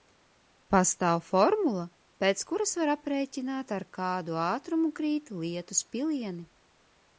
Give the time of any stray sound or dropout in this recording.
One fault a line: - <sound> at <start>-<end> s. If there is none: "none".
none